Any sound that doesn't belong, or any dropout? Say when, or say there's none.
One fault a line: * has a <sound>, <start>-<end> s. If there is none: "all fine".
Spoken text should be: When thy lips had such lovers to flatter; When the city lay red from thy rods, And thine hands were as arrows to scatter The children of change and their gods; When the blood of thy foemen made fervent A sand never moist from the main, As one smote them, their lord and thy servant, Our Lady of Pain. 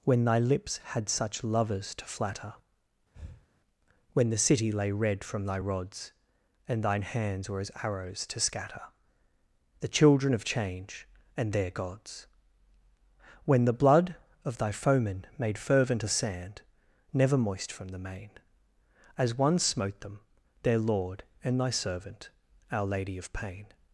* has a breath, 3.1-3.5 s